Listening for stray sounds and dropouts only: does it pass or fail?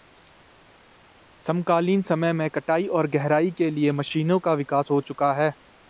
pass